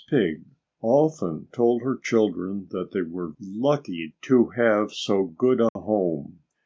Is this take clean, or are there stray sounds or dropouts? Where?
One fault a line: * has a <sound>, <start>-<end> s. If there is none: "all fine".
* has a dropout, 5.7-5.8 s